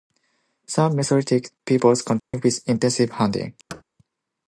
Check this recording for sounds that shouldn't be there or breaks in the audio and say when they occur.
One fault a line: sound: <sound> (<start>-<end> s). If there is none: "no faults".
sound: dropout (2.2-2.3 s)
sound: thud (3.7-3.8 s)